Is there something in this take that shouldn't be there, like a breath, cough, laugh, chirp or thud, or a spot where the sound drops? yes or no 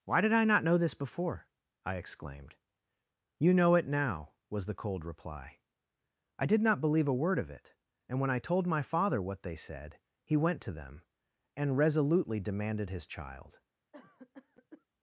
yes